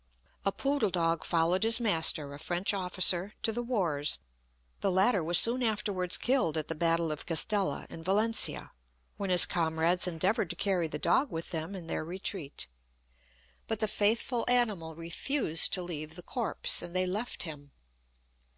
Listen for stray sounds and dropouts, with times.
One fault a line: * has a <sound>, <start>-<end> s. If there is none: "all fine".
all fine